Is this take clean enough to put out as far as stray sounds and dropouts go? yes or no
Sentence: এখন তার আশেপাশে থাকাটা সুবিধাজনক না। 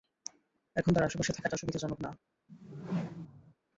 no